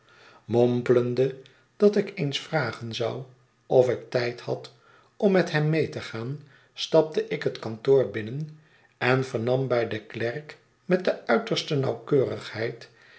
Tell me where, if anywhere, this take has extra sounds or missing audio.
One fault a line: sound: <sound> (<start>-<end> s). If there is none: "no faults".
no faults